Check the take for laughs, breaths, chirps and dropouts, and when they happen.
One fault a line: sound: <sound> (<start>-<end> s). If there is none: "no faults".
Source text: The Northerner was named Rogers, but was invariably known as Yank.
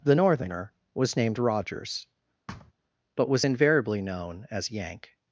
sound: thud (2.5-2.7 s)